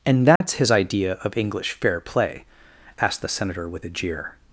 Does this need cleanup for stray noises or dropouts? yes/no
yes